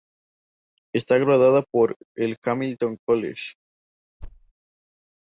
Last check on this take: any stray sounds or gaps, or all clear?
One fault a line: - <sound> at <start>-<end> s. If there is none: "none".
- thud at 4.2-4.5 s